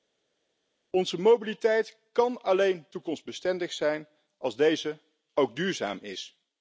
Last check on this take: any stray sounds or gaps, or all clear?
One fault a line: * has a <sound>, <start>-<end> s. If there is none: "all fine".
all fine